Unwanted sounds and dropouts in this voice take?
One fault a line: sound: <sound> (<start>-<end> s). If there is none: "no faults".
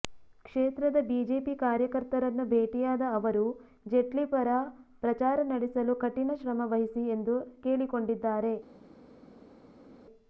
no faults